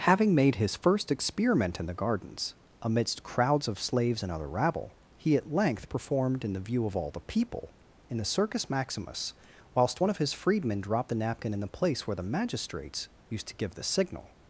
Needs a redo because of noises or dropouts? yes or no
no